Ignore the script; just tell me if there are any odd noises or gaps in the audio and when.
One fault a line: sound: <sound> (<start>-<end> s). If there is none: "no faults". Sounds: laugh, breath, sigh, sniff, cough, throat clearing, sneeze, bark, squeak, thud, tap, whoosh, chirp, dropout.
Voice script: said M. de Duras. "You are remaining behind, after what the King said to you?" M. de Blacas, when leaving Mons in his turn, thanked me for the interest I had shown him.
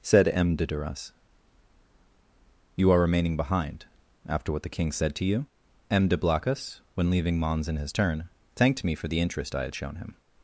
no faults